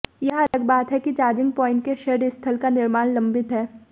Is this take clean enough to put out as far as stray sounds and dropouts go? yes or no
no